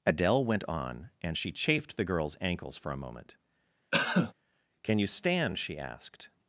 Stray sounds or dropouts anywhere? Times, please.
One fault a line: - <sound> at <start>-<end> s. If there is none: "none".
- cough at 3.9-4.3 s